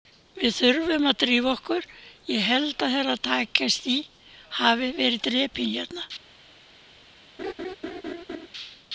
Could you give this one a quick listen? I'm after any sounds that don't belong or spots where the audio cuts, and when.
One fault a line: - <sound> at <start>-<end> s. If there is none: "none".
- laugh at 7.4-8.5 s